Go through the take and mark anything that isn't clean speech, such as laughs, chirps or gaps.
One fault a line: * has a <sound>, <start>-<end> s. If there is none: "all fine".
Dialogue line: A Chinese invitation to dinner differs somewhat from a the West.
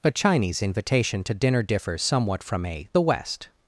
all fine